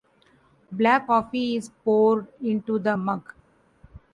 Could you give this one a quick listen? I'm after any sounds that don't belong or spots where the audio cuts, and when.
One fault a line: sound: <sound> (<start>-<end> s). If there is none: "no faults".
no faults